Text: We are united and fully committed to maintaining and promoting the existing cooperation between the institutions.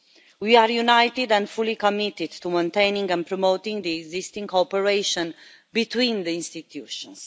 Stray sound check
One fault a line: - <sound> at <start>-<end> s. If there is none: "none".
none